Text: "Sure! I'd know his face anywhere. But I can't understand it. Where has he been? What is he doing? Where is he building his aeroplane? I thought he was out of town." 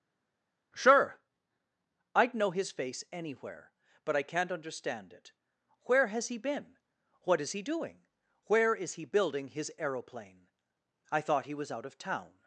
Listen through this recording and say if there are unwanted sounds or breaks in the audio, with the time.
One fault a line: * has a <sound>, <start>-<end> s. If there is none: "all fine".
all fine